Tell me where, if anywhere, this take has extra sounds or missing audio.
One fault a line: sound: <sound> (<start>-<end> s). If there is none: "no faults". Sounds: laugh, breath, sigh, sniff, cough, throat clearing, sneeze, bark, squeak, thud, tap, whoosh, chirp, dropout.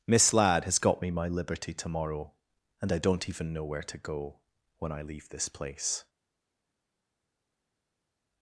no faults